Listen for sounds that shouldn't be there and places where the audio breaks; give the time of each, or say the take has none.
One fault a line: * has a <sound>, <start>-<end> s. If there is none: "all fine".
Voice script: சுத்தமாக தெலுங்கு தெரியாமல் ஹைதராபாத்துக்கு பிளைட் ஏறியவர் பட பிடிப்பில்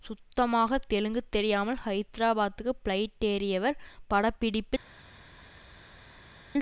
all fine